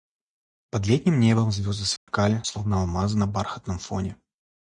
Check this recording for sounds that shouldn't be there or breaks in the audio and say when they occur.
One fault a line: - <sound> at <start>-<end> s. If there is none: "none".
- dropout at 2.0-2.1 s